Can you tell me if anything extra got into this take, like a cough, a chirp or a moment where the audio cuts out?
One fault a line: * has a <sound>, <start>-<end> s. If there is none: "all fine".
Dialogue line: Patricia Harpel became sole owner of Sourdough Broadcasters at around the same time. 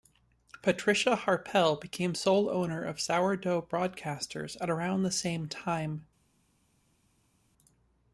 all fine